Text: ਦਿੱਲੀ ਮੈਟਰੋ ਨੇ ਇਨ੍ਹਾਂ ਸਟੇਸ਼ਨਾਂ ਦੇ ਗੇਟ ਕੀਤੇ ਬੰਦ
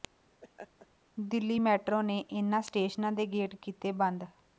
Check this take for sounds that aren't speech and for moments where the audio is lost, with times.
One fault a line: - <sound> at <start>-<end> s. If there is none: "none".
- laugh at 0.4-0.9 s